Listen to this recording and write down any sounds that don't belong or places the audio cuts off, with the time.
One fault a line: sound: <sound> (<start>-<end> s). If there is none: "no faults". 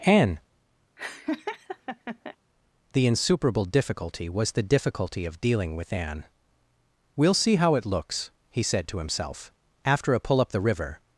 sound: laugh (1.0-2.4 s)